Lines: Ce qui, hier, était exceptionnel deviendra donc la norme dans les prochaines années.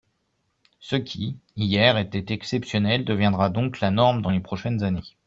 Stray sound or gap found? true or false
false